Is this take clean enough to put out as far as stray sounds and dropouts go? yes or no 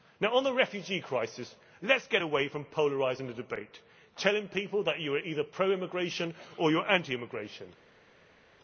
yes